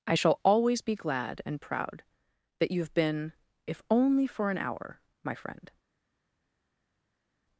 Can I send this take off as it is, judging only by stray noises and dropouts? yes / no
yes